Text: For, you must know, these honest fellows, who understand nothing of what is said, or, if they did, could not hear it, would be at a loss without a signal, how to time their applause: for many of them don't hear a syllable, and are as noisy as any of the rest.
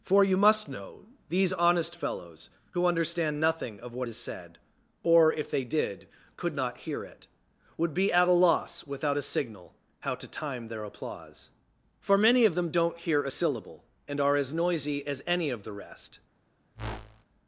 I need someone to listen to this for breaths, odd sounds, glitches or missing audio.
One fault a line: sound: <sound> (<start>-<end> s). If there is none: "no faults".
sound: whoosh (16.7-17.2 s)